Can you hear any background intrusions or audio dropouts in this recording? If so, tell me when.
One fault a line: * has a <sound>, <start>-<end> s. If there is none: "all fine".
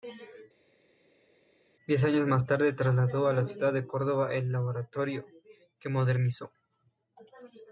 all fine